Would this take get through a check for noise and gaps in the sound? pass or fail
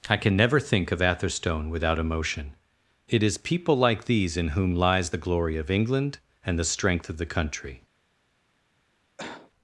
fail